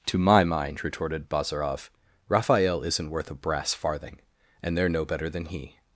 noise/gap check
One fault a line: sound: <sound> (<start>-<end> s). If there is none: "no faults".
no faults